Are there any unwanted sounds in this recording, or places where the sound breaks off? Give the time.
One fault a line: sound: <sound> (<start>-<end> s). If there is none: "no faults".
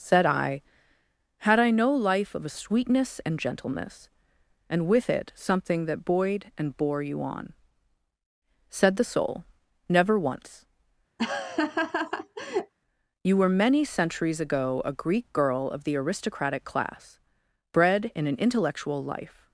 sound: laugh (11.2-12.7 s)